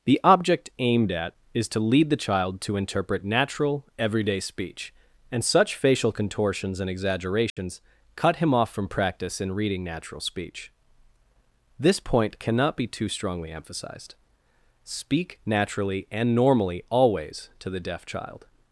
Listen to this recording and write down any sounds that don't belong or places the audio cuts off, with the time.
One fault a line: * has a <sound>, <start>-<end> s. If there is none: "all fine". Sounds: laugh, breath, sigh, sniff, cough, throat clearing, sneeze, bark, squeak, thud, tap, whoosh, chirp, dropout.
* has a dropout, 7.5-7.6 s